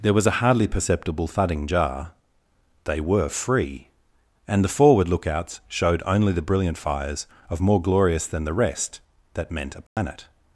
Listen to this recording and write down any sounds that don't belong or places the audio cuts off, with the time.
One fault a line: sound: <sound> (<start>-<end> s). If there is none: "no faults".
sound: dropout (9.9-10.0 s)